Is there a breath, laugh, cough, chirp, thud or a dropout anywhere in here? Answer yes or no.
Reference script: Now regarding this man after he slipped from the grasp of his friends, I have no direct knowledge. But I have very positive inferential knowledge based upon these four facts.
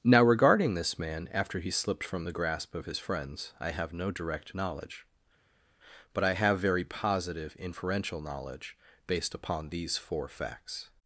no